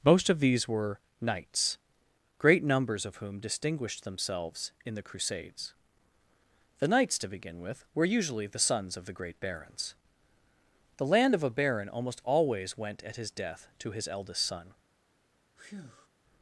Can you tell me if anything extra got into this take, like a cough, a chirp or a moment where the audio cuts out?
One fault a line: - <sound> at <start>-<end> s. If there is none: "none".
- breath at 15.6-16.1 s